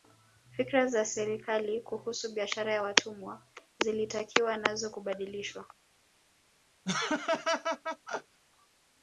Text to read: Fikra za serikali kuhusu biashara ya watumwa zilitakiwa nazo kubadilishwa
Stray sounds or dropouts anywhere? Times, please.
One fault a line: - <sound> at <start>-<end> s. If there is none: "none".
- laugh at 6.8-8.4 s